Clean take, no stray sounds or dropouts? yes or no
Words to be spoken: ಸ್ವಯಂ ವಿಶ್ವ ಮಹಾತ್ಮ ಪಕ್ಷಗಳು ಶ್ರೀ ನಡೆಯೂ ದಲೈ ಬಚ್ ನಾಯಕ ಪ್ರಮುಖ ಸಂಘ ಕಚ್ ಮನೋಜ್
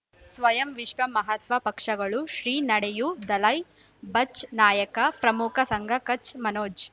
yes